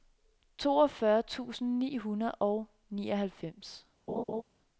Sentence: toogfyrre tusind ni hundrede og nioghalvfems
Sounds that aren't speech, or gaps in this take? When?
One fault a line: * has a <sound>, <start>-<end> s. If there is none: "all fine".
* has a laugh, 4.1-4.4 s